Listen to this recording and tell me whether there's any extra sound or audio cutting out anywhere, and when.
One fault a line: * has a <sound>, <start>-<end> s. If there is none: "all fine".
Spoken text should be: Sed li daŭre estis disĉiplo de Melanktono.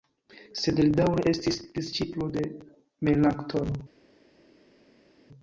all fine